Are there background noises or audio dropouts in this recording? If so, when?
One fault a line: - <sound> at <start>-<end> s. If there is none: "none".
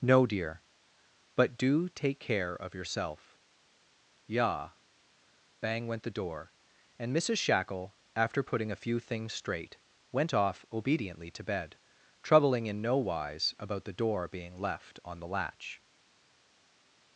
none